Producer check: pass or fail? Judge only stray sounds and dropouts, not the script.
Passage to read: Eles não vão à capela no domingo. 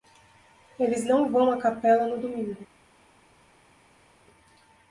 pass